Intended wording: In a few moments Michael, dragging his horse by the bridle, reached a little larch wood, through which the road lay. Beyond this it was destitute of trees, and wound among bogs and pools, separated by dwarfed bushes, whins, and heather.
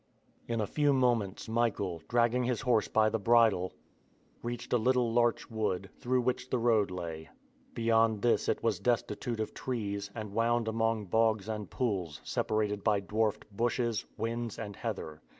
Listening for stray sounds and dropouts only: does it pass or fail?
pass